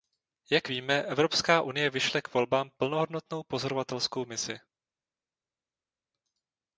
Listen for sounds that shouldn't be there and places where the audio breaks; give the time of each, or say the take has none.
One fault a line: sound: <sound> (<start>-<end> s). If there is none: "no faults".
no faults